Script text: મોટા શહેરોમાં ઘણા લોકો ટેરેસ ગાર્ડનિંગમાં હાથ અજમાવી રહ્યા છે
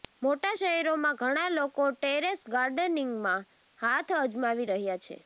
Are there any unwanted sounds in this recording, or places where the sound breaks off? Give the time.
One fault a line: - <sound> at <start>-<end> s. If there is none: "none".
none